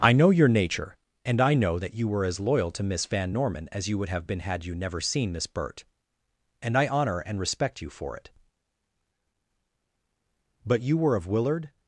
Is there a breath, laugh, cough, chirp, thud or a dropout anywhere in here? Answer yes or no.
no